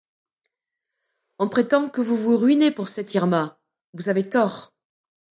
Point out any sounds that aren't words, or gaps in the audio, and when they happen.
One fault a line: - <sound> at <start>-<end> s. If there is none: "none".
none